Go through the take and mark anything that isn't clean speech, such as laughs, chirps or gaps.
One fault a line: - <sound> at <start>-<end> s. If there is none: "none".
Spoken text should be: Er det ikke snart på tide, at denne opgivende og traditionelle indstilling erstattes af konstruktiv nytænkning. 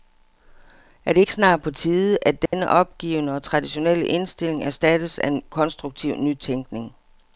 - dropout at 2.5-2.5 s